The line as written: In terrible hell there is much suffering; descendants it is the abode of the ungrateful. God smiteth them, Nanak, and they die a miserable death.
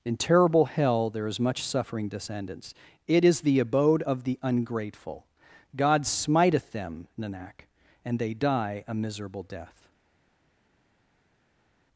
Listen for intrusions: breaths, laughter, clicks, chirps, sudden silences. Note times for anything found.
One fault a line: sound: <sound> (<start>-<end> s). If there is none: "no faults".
no faults